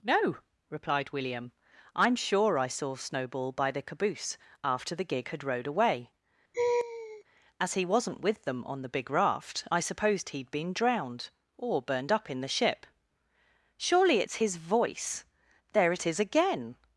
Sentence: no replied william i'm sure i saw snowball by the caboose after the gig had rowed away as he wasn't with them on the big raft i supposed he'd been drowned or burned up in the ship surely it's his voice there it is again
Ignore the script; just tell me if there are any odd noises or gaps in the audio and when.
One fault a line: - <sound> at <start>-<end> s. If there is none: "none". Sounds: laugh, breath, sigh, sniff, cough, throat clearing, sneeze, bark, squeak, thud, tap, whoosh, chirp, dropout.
- laugh at 6.5-7.2 s